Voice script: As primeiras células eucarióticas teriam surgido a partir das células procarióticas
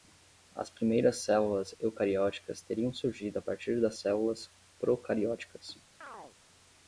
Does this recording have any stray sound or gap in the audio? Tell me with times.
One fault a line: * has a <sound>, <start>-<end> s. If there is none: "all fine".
* has a chirp, 6.0-6.4 s